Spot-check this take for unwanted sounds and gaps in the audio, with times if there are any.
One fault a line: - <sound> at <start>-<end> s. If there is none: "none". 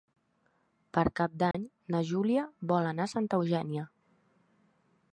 - dropout at 1.5-1.5 s